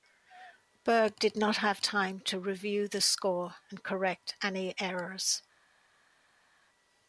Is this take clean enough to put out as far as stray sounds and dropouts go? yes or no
yes